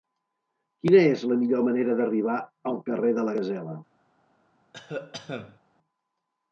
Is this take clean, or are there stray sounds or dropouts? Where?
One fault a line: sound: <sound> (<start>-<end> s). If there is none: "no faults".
sound: cough (4.7-5.6 s)